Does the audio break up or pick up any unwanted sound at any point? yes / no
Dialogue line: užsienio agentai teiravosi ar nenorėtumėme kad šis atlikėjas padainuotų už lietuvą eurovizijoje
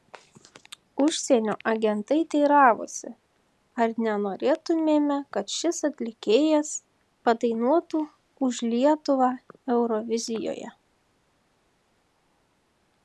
no